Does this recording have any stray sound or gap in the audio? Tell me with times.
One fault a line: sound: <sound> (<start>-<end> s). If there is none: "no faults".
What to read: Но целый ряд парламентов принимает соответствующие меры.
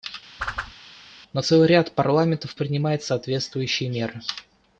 sound: whoosh (0.4-0.7 s)